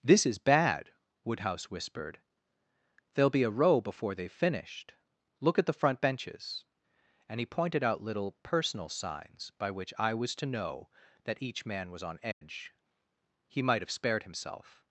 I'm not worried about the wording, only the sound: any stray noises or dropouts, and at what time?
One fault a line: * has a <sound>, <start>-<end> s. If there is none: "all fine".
* has a dropout, 12.3-12.4 s